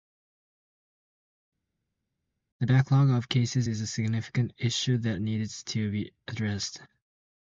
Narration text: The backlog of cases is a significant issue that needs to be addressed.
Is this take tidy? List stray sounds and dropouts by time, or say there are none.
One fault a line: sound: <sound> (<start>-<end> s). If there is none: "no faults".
no faults